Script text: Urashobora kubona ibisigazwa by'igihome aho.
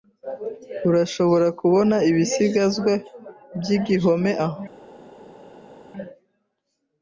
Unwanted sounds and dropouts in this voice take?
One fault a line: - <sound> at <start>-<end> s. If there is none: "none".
none